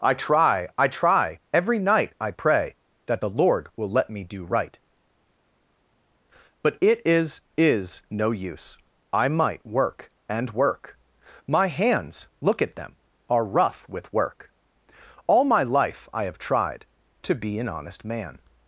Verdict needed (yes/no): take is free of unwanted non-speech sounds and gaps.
yes